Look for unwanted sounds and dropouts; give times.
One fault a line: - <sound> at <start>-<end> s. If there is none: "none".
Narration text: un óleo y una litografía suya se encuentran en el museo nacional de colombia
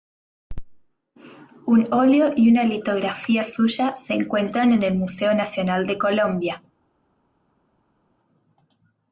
none